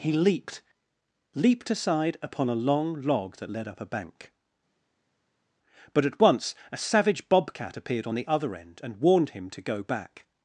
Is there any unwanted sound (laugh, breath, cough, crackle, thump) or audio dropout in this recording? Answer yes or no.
no